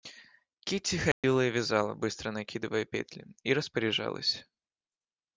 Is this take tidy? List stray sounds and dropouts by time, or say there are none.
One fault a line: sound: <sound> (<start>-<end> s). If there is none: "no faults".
sound: dropout (1.1-1.2 s)